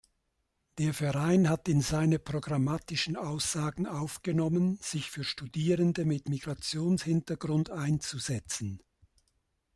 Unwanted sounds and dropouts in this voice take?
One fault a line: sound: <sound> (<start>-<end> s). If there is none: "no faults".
no faults